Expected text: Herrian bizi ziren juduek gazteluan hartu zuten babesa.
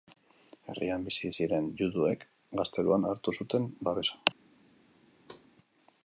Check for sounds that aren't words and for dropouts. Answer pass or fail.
fail